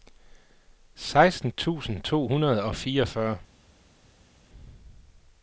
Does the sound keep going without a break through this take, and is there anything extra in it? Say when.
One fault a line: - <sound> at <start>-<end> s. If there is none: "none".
none